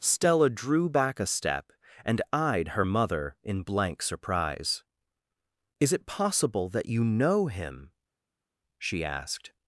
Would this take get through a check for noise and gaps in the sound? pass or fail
pass